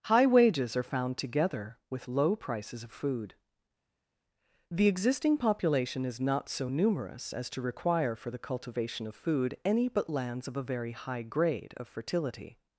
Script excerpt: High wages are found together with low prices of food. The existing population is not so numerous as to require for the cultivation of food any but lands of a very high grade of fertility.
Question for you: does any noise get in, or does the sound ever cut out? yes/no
no